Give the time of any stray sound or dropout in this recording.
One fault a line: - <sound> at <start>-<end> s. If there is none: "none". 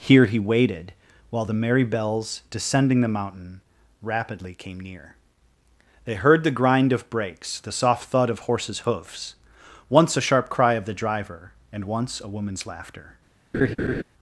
- laugh at 13.5-14.0 s